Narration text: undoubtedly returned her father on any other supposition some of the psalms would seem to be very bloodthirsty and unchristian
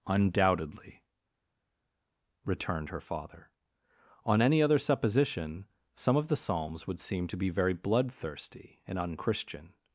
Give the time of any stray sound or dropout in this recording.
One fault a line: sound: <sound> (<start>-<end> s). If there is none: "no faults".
no faults